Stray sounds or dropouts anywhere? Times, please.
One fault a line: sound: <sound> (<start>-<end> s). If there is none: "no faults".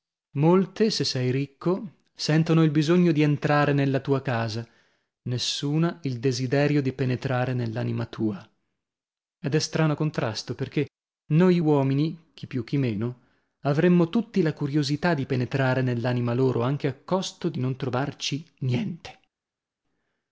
no faults